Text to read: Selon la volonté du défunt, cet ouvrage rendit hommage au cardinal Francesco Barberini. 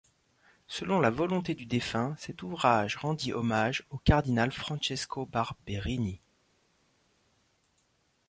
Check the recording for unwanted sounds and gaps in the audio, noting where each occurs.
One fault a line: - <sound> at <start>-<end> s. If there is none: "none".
none